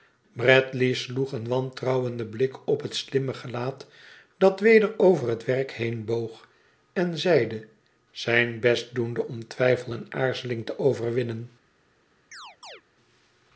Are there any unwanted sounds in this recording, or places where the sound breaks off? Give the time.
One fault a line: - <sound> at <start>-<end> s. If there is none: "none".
- chirp at 12.3-12.8 s